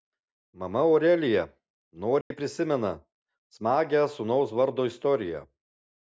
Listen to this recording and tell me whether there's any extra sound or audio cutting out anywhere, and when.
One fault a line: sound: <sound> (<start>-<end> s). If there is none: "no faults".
sound: dropout (2.2-2.3 s)